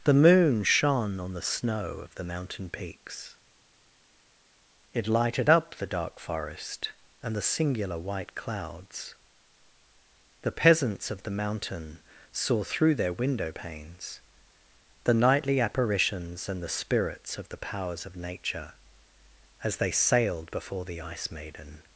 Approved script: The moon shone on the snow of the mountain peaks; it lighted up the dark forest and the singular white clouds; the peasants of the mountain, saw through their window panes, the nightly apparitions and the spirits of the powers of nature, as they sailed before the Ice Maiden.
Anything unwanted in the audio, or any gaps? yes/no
no